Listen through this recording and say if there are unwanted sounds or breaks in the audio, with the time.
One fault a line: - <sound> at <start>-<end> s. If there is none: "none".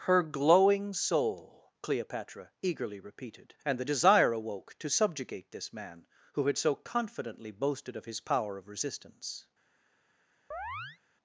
- chirp at 10.5-11.0 s